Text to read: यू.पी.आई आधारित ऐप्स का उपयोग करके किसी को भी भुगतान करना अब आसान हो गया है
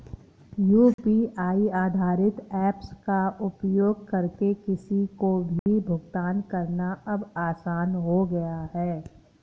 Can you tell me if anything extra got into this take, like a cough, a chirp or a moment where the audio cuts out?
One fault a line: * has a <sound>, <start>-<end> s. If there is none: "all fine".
* has a dropout, 0.9-1.0 s
* has a dropout, 5.6-5.7 s